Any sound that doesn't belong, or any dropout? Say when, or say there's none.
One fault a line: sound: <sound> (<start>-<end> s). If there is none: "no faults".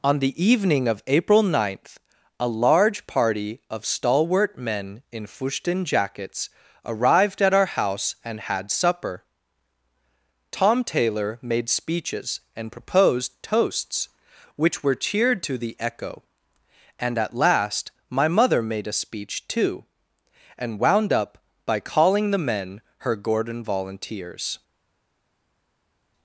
no faults